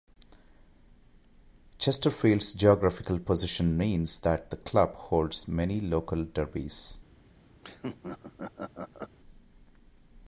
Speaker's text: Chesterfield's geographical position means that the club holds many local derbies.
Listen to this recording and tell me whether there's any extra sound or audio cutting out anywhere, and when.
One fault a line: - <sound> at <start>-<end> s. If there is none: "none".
- laugh at 7.6-9.2 s